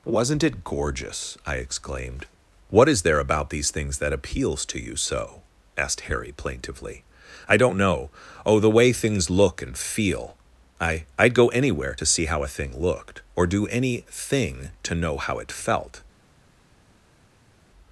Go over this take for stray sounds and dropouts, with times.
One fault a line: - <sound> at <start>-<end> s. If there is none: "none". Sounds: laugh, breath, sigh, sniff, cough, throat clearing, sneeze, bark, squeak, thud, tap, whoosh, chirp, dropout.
none